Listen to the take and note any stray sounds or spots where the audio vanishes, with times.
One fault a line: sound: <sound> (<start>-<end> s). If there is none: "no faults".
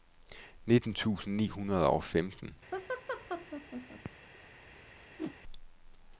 sound: laugh (2.7-4.1 s)
sound: whoosh (5.2-5.4 s)